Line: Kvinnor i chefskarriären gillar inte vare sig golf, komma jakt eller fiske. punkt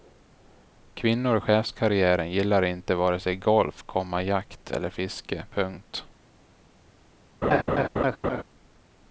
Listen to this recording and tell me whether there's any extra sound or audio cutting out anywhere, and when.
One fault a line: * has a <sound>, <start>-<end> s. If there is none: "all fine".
* has a laugh, 7.4-8.4 s